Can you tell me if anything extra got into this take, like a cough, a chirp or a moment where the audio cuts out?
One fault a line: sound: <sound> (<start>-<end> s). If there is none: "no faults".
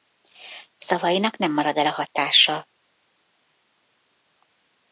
no faults